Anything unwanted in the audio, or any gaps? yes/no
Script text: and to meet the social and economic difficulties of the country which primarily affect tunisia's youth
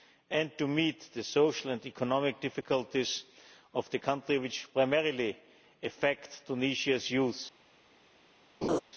yes